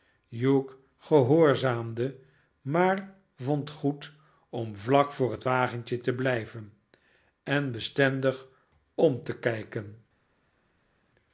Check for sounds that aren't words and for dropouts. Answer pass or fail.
pass